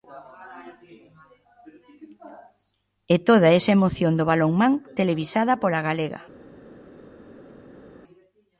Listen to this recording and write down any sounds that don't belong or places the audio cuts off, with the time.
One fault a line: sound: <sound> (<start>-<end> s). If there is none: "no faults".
no faults